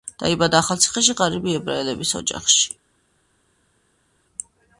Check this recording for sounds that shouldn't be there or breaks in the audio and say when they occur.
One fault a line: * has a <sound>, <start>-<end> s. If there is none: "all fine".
all fine